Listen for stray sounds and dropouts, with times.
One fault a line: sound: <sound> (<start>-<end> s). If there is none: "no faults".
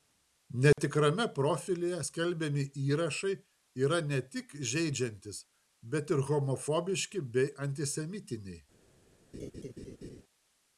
sound: dropout (0.7-0.8 s)
sound: laugh (9.3-10.2 s)